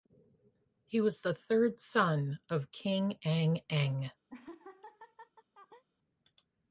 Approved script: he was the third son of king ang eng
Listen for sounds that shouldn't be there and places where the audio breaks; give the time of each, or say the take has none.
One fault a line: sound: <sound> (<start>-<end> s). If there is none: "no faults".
sound: laugh (4.3-5.8 s)